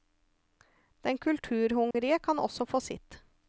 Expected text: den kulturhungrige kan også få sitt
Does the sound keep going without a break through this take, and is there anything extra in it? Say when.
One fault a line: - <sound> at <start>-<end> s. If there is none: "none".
- dropout at 1.9-1.9 s